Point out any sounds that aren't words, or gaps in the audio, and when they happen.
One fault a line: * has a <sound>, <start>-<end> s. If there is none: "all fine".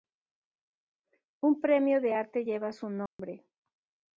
* has a dropout, 3.1-3.2 s